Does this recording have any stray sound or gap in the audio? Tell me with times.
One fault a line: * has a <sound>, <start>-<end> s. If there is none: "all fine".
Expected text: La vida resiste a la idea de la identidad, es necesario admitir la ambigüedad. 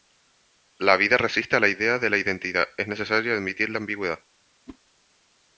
* has a whoosh, 4.7-4.8 s